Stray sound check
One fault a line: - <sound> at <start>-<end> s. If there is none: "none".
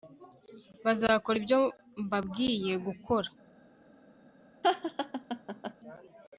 - laugh at 4.6-5.7 s